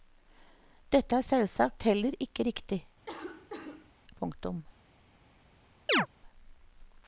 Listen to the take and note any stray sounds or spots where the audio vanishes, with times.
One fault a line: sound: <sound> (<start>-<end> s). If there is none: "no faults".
sound: cough (3.1-3.9 s)
sound: chirp (5.9-6.1 s)